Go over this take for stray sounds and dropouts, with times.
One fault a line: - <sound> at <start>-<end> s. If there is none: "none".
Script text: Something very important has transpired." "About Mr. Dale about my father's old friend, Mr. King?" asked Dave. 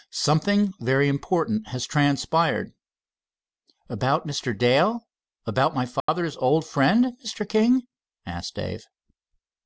- dropout at 6.0-6.1 s